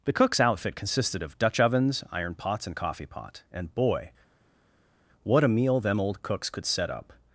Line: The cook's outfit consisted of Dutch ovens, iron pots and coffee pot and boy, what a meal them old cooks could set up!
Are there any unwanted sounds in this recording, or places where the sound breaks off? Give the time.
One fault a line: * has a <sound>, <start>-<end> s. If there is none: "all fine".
all fine